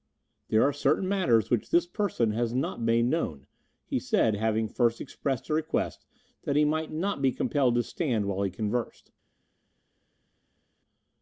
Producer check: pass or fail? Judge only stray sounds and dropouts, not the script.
pass